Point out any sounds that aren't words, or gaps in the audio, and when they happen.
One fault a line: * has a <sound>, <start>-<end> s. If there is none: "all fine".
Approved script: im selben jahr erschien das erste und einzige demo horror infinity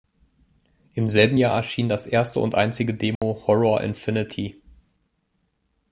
* has a dropout, 3.2-3.2 s